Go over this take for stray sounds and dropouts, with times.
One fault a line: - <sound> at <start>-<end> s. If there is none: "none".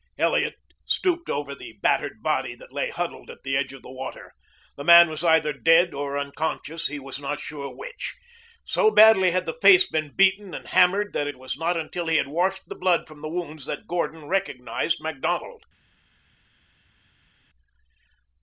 none